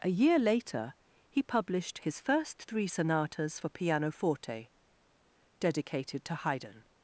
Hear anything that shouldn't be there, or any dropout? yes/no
no